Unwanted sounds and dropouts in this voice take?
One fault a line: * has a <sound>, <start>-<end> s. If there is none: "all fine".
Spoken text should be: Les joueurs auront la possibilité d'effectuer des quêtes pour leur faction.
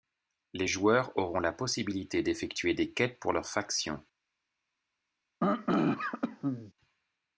* has a throat clearing, 5.4-6.7 s